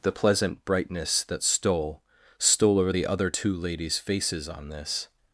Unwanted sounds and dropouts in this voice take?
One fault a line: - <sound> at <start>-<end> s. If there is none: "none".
none